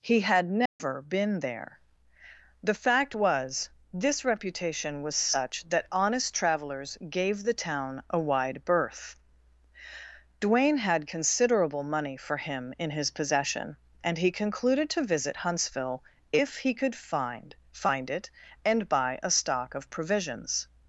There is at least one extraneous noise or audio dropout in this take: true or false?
true